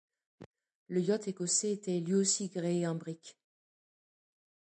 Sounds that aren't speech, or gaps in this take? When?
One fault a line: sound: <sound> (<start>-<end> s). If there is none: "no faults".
no faults